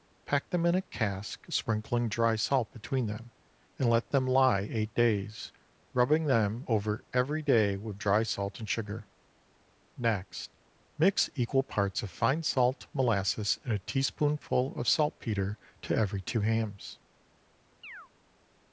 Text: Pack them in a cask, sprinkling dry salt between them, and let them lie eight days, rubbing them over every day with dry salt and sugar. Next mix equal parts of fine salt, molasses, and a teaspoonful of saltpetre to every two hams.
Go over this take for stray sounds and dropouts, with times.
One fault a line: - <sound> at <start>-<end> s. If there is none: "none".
- chirp at 17.8-18.1 s